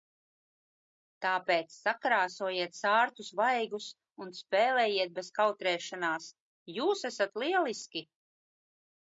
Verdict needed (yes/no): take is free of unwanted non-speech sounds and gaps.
yes